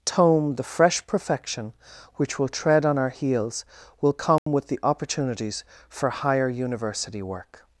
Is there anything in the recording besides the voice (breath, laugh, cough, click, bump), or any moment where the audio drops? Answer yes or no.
yes